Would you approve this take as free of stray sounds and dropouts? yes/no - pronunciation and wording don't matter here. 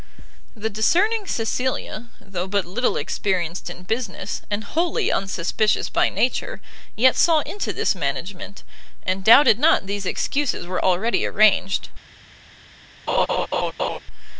no